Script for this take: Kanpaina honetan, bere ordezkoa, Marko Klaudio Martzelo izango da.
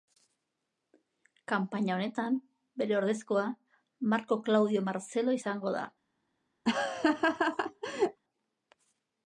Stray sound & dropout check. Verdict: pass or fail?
fail